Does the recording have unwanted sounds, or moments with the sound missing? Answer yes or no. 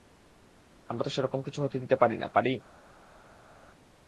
no